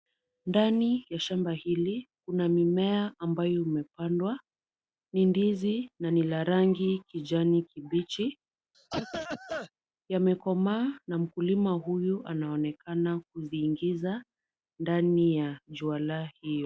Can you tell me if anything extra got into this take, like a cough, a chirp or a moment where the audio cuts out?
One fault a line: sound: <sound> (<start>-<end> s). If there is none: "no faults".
sound: cough (8.7-9.7 s)